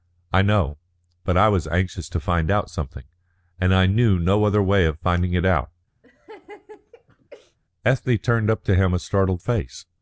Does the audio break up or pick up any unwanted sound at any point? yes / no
yes